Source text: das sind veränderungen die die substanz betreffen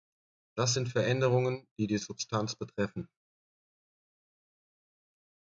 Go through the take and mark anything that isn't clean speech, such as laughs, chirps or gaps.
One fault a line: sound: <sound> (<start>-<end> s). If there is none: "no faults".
no faults